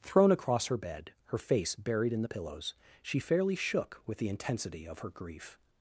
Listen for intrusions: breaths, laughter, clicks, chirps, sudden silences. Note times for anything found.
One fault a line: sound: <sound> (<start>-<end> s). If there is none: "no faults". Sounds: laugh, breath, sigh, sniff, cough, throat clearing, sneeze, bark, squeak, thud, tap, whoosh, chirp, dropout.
no faults